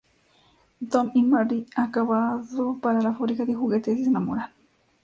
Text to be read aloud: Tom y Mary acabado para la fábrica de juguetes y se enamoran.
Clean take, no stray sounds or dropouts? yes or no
yes